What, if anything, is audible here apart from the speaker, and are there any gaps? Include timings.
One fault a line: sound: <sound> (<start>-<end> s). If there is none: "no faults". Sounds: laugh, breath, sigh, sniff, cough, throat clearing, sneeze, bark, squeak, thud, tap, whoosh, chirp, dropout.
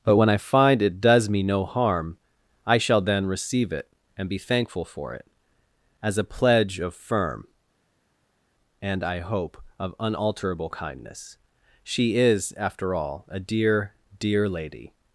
no faults